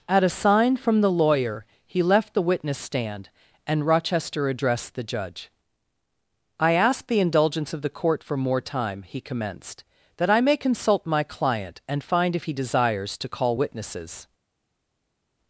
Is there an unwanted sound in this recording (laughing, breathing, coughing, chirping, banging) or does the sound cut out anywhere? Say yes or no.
no